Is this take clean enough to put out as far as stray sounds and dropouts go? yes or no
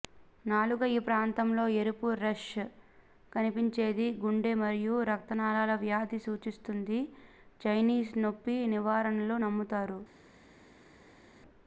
yes